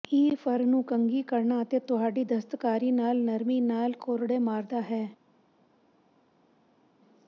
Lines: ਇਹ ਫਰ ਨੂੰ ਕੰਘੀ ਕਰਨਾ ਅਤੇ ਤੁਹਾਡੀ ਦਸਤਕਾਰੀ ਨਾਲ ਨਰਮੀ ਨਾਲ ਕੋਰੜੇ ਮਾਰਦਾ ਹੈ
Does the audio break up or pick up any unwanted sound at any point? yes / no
no